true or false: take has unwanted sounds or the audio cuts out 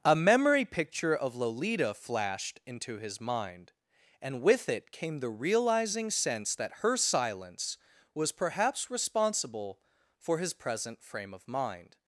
false